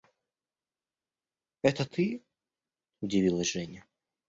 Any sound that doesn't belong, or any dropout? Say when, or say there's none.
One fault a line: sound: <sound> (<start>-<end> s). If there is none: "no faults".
no faults